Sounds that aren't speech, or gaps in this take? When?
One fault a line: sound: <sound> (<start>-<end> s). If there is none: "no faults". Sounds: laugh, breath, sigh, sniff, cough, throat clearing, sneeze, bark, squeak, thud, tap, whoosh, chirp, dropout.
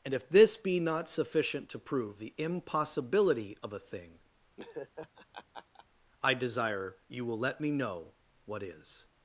sound: laugh (4.6-5.9 s)